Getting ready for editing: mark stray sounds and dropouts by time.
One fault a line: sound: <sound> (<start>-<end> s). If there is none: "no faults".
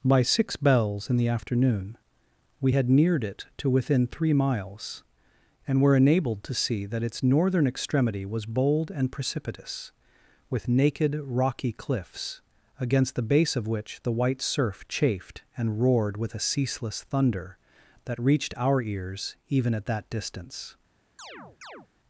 sound: chirp (21.2-21.9 s)